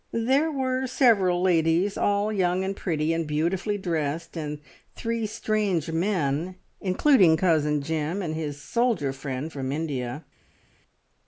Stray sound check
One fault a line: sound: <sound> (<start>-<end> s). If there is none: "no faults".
no faults